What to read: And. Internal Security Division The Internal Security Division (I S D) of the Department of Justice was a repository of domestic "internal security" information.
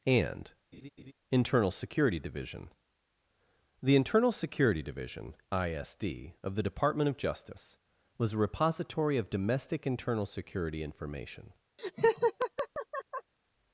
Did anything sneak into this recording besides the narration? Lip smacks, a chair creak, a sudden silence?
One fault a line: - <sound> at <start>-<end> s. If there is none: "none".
- laugh at 0.7-1.1 s
- laugh at 11.8-13.3 s